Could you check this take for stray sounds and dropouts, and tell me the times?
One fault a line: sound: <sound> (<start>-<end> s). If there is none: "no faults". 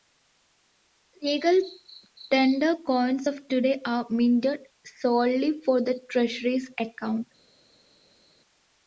no faults